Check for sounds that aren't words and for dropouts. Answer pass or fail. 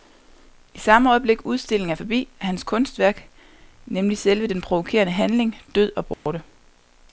fail